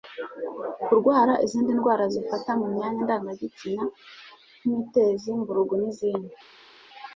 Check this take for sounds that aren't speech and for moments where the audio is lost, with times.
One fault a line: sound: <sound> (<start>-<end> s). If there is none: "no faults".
no faults